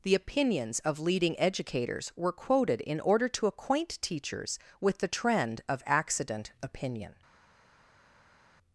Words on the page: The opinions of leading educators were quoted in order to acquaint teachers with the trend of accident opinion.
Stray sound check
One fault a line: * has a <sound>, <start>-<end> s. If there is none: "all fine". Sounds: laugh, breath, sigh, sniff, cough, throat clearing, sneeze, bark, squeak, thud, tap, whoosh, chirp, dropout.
all fine